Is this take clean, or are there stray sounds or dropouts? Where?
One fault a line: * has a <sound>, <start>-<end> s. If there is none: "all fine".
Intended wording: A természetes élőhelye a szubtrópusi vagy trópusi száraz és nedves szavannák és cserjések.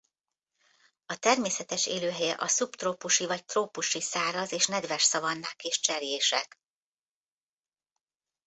all fine